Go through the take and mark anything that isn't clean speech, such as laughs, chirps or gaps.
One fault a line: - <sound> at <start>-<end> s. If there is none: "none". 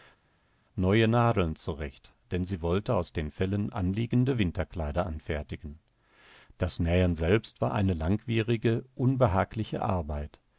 none